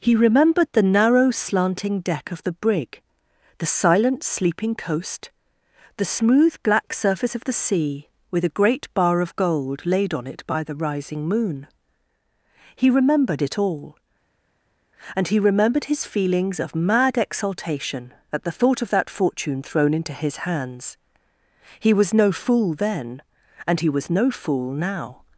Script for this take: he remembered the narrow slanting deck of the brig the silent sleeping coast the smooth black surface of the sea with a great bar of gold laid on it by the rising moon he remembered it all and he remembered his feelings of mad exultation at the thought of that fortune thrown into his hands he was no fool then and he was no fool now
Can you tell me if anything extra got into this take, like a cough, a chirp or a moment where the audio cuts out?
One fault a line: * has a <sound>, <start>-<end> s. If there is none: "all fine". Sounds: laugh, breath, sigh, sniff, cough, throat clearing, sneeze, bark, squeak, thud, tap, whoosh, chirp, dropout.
all fine